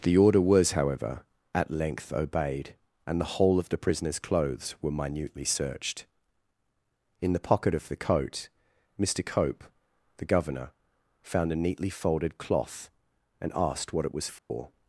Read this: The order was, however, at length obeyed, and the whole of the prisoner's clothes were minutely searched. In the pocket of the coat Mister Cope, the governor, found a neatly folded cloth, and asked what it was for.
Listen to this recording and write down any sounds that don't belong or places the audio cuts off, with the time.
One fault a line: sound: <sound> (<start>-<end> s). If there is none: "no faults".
sound: dropout (14.4-14.5 s)